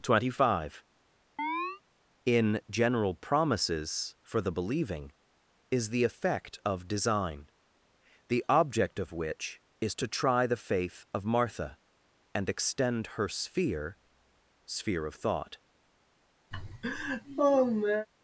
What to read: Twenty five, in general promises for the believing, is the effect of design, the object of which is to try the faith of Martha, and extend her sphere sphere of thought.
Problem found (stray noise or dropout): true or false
true